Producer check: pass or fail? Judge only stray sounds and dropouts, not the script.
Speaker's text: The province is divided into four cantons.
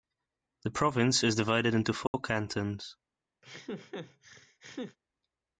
fail